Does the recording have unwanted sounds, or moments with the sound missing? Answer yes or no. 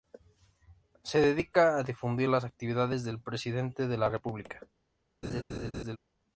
yes